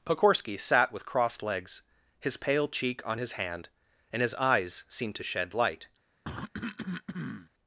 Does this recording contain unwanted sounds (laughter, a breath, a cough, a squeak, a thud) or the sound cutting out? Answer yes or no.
yes